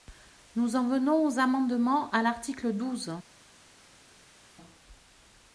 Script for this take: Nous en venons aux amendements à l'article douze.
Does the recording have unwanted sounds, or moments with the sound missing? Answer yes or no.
no